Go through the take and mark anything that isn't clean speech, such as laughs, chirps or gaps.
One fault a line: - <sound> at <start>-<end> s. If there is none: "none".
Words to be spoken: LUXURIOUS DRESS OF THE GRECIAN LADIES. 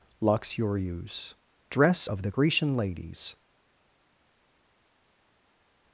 none